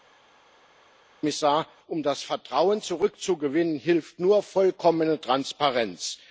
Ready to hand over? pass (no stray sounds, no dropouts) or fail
pass